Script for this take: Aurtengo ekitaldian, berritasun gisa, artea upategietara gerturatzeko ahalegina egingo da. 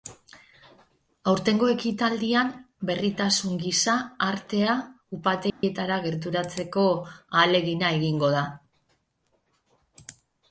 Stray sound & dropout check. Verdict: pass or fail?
fail